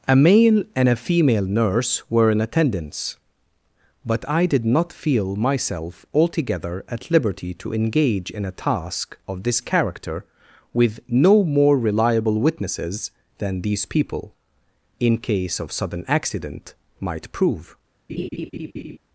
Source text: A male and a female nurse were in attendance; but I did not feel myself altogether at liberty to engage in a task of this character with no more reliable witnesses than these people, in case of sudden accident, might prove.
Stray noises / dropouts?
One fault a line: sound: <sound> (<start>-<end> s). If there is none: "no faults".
sound: laugh (18.1-19.0 s)